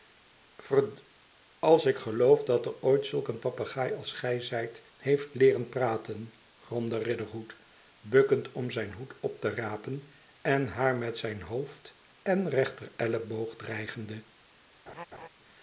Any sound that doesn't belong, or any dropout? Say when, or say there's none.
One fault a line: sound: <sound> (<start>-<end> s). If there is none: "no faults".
sound: laugh (14.9-15.3 s)